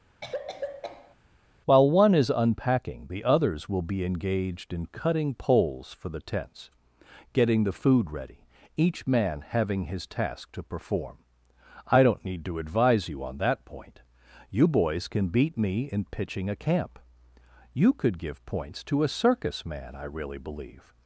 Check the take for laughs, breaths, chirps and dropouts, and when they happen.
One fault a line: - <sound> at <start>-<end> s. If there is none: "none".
- cough at 0.2-1.2 s